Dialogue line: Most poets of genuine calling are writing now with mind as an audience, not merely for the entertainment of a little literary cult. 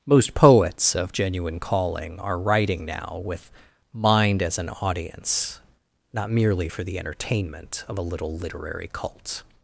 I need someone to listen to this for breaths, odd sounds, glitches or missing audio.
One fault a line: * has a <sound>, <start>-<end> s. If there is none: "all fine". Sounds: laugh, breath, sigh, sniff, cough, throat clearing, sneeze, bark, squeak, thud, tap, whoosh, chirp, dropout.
all fine